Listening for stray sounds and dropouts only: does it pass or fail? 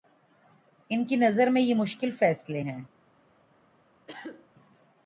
fail